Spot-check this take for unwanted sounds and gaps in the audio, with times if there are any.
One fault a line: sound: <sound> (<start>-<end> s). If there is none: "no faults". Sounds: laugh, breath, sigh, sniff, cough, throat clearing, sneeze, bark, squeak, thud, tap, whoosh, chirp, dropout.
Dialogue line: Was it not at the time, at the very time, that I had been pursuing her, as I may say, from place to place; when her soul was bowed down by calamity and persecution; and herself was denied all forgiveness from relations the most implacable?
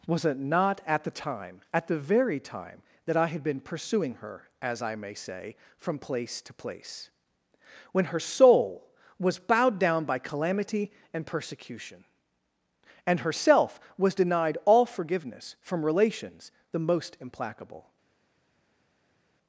no faults